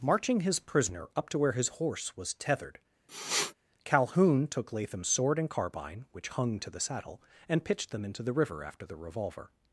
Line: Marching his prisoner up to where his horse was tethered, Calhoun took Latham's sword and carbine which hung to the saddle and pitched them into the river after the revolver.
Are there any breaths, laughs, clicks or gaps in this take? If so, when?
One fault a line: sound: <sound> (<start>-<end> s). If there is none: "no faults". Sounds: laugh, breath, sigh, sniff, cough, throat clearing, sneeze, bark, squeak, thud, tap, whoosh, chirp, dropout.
sound: sniff (3.1-3.5 s)